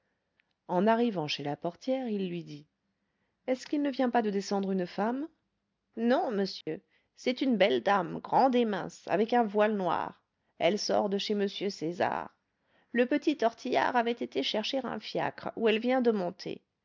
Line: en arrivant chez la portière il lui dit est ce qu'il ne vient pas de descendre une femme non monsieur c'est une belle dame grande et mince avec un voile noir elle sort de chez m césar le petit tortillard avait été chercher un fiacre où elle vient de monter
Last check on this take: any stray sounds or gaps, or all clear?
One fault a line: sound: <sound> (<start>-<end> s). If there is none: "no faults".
sound: dropout (6.6-6.7 s)